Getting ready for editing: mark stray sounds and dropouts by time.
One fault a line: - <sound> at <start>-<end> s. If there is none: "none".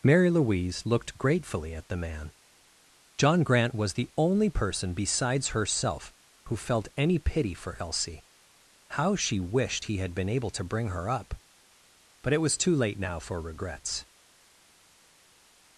none